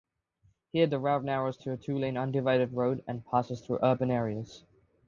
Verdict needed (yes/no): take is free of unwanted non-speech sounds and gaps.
yes